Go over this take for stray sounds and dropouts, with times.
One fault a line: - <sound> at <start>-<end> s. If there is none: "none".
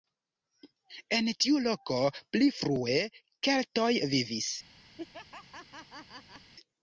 - laugh at 5.0-6.5 s